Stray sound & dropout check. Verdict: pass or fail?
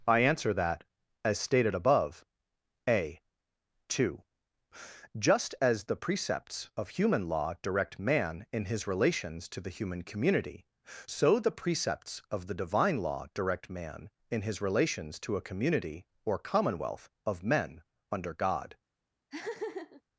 fail